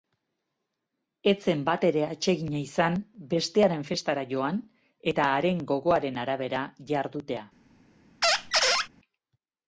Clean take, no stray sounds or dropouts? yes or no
no